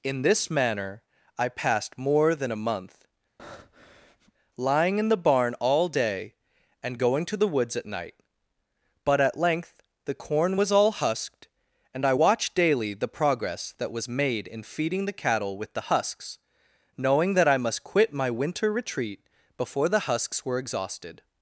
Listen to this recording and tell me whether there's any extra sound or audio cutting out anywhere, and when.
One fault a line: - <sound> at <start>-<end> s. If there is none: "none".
- breath at 3.4-4.3 s